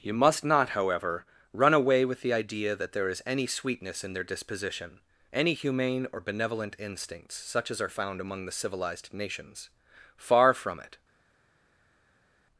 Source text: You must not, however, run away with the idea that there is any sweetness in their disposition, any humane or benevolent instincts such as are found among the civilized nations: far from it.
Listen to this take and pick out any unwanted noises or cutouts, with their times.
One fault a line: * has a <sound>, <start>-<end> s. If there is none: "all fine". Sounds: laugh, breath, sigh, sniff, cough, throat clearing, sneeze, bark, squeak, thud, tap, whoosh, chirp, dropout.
all fine